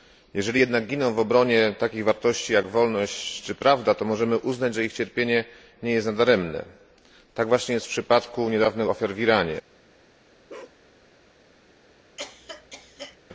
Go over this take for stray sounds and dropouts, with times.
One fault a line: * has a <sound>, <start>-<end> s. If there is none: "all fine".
* has a bark, 10.5-10.8 s
* has a cough, 12.2-13.2 s